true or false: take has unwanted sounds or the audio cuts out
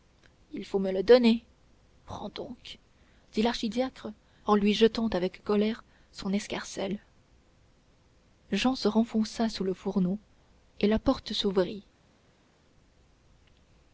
false